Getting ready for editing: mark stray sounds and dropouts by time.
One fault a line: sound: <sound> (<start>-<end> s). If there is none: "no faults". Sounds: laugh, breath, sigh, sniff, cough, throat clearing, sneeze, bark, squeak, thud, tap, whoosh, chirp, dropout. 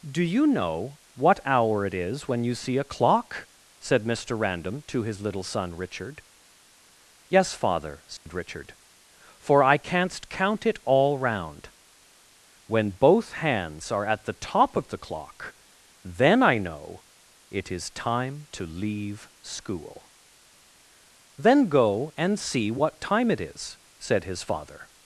sound: dropout (8.2-8.3 s)